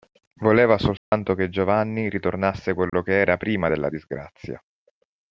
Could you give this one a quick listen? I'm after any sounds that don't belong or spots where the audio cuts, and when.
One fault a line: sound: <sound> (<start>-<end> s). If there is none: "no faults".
sound: dropout (1.0-1.1 s)
sound: dropout (2.9-2.9 s)